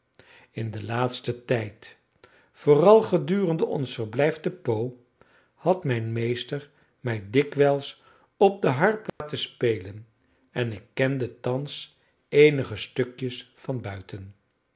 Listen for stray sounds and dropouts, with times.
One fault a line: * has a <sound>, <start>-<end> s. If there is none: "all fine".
* has a dropout, 9.1-9.2 s